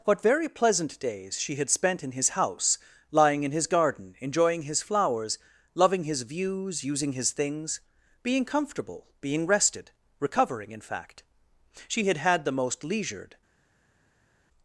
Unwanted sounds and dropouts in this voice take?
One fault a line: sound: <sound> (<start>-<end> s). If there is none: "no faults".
no faults